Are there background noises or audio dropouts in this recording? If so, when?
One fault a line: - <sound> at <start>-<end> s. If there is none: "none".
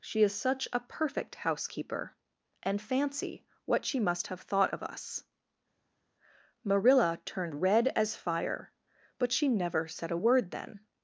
none